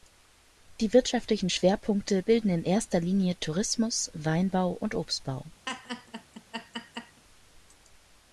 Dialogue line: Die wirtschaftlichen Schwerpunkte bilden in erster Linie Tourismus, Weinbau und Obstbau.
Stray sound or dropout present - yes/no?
yes